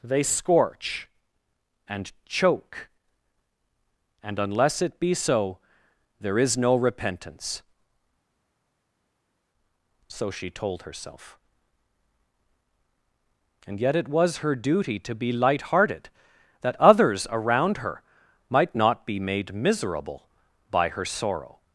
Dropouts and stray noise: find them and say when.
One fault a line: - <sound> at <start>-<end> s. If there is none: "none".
none